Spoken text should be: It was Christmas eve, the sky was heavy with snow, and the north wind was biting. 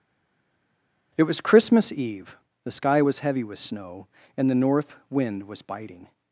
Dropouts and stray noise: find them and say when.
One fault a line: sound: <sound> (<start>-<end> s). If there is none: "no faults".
no faults